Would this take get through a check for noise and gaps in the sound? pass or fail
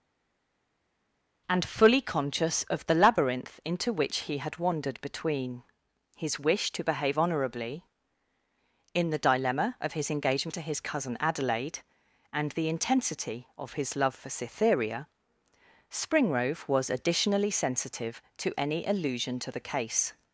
pass